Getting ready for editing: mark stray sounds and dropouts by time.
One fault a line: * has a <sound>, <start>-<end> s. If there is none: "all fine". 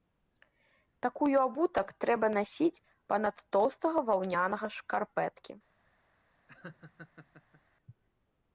* has a laugh, 6.5-7.6 s